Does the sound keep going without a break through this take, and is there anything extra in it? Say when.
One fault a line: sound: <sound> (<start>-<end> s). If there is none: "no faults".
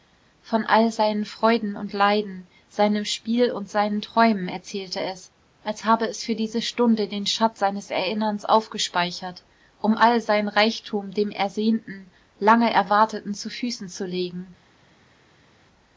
no faults